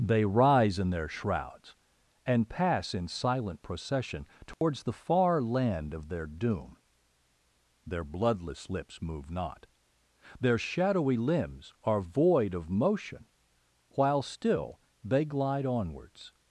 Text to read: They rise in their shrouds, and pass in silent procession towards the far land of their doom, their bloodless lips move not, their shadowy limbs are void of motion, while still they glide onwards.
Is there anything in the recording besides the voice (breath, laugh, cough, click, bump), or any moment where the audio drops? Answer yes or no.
yes